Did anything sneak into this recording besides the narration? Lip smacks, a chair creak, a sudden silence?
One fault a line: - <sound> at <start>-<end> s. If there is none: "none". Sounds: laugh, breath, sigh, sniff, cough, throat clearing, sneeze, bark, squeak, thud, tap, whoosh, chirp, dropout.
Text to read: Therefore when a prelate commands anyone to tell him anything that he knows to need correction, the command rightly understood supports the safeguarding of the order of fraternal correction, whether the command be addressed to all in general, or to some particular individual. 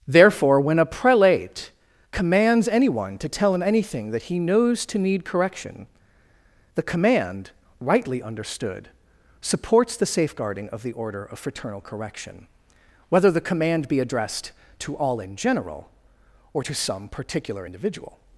none